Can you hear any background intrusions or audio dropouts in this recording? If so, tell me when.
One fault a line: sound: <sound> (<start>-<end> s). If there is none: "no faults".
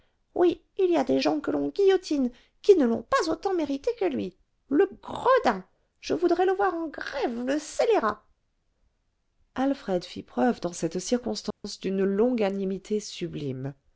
sound: dropout (11.5-11.6 s)